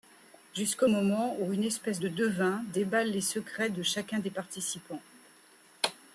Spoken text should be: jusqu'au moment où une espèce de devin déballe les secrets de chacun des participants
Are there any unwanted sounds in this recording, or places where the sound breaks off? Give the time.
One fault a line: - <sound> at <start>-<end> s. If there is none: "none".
none